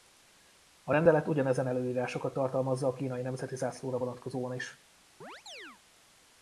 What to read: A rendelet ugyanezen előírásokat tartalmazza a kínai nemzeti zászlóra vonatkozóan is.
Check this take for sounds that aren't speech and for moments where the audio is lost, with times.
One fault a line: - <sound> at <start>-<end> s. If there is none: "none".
- chirp at 5.2-5.8 s